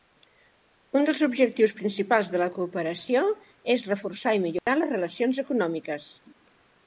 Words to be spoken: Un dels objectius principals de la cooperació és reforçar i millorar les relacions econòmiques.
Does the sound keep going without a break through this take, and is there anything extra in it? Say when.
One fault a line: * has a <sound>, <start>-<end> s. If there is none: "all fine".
* has a dropout, 4.6-4.7 s